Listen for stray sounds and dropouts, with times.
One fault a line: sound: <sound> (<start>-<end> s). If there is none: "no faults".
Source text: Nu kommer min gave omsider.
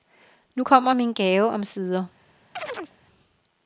sound: chirp (2.6-3.0 s)